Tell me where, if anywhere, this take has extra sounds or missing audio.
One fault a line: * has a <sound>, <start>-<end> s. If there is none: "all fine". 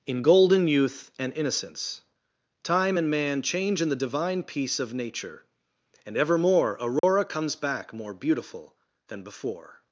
* has a dropout, 7.0-7.0 s